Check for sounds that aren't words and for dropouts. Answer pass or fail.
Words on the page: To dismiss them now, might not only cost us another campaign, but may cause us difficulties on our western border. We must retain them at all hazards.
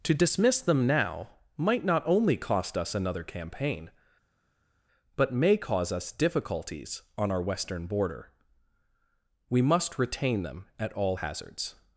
pass